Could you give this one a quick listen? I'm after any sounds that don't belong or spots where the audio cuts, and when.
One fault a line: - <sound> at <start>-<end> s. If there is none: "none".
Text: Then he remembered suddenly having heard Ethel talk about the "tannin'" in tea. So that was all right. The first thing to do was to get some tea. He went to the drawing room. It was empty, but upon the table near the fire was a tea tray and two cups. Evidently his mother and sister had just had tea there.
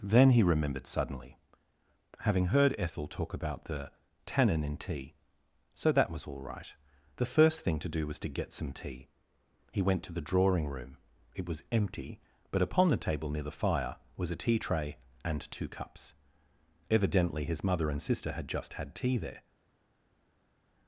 none